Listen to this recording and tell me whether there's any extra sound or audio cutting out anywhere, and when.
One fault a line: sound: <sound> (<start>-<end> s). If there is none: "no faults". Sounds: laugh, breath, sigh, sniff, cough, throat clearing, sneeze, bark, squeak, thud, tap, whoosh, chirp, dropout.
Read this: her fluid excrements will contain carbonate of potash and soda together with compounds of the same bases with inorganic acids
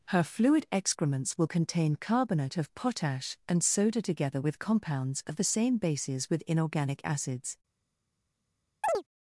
sound: chirp (8.8-9.0 s)